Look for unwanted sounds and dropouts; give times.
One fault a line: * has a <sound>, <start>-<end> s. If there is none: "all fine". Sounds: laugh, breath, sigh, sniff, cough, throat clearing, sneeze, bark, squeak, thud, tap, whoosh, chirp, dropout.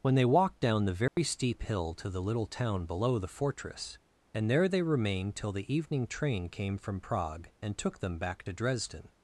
* has a dropout, 1.1-1.2 s